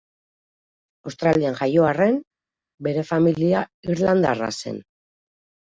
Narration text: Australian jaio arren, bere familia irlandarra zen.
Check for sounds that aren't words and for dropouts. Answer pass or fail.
pass